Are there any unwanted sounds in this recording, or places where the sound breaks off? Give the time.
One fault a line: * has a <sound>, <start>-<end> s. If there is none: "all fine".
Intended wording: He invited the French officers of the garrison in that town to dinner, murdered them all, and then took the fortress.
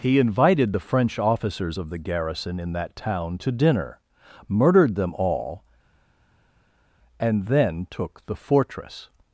all fine